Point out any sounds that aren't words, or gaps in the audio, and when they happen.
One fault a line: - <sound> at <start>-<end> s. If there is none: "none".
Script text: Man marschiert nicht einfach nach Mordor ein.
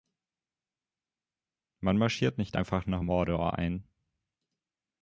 none